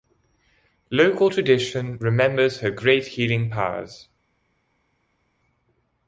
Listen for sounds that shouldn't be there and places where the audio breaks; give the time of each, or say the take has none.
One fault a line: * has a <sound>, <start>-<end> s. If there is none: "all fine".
all fine